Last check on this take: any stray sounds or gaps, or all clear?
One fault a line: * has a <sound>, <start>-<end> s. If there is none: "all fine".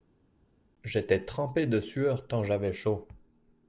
all fine